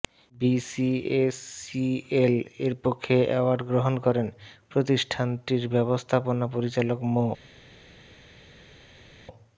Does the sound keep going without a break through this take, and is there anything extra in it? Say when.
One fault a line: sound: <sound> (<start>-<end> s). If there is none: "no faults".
no faults